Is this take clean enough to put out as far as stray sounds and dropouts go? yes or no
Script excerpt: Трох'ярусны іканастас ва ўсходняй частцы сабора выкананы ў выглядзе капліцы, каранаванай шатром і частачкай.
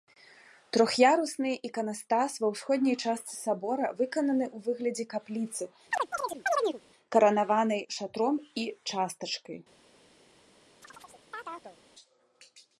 no